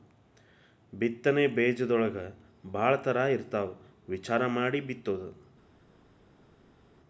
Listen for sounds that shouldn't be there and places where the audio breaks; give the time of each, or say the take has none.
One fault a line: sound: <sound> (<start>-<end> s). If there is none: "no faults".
no faults